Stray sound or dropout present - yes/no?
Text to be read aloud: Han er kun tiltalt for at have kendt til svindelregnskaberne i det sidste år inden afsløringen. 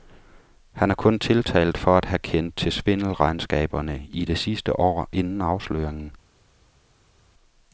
no